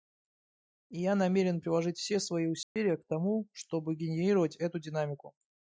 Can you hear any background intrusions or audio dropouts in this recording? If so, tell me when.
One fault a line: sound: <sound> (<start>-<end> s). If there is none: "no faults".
sound: dropout (2.6-2.8 s)